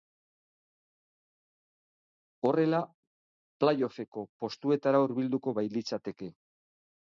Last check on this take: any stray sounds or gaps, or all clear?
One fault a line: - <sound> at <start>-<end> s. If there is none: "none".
none